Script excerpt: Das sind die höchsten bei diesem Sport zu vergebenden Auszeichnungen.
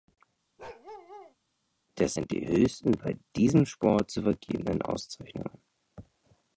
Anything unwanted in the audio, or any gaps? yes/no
yes